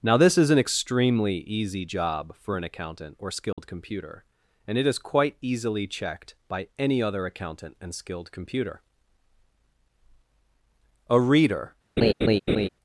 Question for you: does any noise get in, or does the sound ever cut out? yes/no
yes